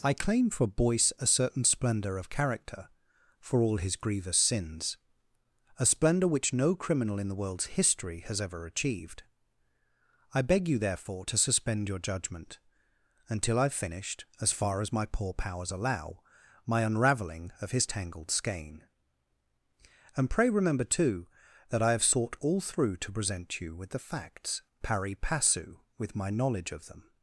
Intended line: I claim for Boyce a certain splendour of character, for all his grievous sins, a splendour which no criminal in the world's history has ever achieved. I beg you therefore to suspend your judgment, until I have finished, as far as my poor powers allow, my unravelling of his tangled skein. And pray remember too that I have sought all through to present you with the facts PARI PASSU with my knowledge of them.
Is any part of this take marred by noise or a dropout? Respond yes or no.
no